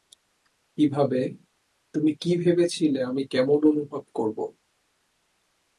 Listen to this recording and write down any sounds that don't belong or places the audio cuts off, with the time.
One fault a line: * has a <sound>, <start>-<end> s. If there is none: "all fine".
all fine